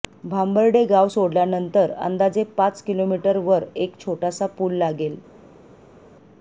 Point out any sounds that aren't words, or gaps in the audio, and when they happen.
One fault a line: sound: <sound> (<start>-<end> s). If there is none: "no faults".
no faults